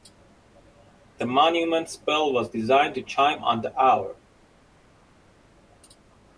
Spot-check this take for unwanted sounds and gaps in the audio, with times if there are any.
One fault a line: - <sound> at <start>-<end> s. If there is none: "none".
none